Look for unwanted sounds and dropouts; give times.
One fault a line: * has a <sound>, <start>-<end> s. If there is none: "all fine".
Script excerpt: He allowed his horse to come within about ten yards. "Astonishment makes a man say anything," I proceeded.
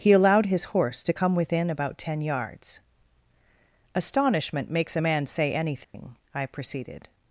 * has a dropout, 5.8-5.9 s